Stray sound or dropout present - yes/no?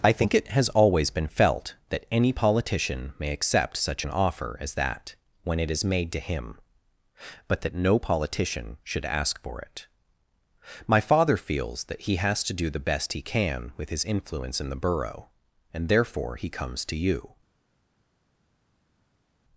no